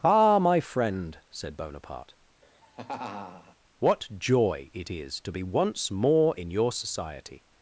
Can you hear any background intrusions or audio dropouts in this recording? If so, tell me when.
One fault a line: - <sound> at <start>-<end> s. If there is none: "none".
- laugh at 2.4-3.6 s